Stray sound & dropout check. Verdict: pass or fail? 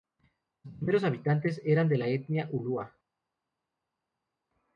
pass